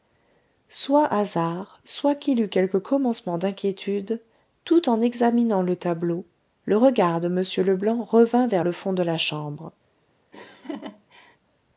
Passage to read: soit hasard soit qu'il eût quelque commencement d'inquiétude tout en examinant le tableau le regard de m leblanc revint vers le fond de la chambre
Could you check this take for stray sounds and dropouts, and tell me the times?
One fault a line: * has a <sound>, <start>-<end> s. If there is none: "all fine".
* has a laugh, 10.3-11.4 s